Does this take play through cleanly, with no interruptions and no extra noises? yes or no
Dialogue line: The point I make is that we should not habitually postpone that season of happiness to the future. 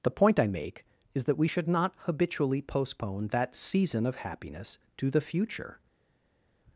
yes